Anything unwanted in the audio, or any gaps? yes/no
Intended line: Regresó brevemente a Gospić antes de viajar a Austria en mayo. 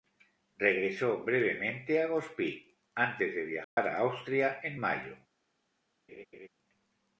yes